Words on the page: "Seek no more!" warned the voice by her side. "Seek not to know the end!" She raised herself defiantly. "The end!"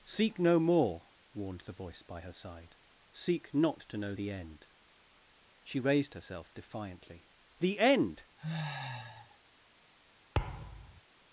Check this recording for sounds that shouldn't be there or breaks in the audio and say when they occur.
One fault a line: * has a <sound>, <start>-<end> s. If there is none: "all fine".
* has a sniff, 8.4-9.4 s
* has a thud, 10.3-11.0 s